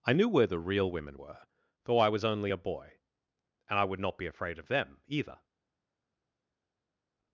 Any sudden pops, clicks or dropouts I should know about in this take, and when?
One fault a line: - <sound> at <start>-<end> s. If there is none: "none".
none